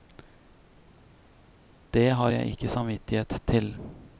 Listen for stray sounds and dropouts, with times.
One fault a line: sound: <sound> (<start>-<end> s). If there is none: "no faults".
no faults